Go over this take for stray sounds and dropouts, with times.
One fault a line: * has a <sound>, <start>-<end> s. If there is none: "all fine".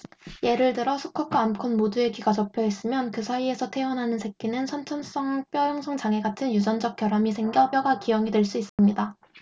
* has a dropout, 8.7-8.8 s